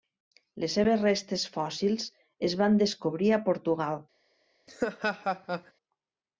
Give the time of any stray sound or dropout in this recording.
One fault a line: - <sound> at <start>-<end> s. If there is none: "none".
- laugh at 4.7-5.7 s